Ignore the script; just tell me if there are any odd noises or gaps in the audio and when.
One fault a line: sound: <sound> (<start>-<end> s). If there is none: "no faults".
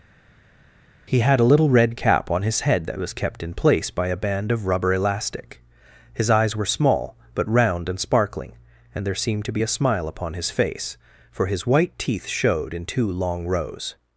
no faults